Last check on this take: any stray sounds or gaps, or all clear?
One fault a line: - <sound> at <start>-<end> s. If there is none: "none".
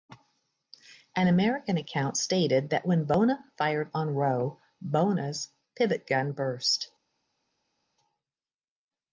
none